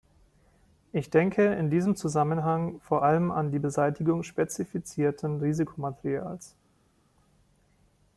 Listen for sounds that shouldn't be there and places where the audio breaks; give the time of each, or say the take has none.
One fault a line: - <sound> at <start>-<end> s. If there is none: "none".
none